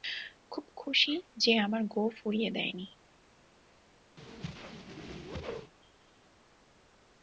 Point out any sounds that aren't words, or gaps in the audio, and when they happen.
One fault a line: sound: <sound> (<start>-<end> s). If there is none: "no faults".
sound: whoosh (4.2-5.7 s)